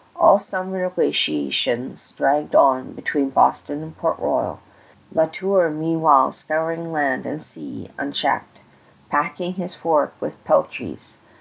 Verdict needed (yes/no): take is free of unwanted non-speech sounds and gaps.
yes